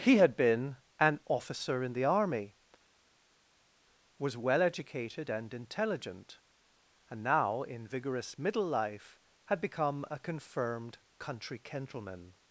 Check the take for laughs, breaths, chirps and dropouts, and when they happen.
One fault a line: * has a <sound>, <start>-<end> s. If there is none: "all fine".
all fine